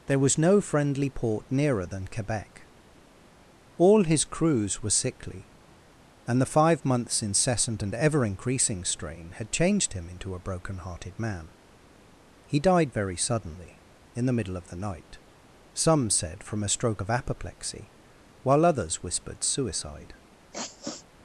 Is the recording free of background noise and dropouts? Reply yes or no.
no